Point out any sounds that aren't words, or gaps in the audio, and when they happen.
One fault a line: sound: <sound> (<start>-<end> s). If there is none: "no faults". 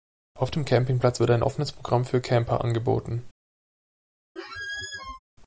sound: squeak (4.4-5.2 s)